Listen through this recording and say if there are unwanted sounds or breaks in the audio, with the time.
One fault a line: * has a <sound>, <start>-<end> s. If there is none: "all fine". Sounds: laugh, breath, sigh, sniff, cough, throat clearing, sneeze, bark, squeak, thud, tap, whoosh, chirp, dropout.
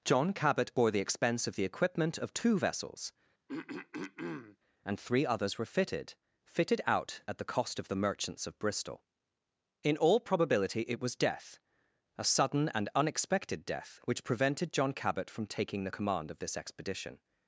* has a throat clearing, 3.5-4.6 s